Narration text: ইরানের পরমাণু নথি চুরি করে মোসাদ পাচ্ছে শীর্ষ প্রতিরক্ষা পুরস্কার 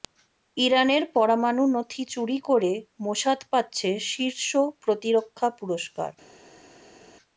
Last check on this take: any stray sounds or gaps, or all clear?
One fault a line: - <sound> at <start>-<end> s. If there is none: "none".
none